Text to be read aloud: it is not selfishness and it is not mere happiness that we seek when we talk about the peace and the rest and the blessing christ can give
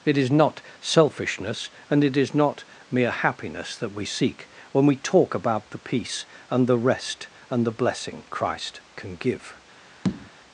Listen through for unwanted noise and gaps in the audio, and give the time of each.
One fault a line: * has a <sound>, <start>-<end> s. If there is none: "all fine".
* has a tap, 10.0-10.3 s